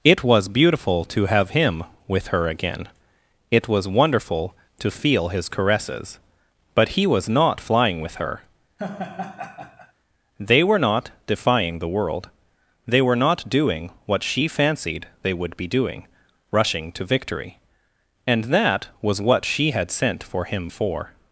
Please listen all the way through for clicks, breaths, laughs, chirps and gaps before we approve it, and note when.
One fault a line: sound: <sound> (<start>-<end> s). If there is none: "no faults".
sound: laugh (8.8-9.9 s)